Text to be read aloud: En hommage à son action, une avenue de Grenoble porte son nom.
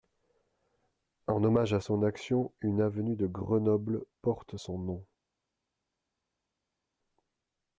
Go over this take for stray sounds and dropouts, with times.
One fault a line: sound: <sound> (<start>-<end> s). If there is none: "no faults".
no faults